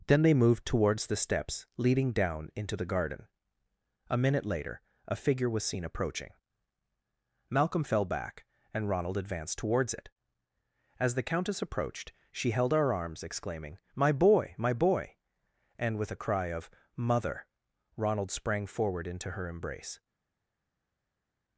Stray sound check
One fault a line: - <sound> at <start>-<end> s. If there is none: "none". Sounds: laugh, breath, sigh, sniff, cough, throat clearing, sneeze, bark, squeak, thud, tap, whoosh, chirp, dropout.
none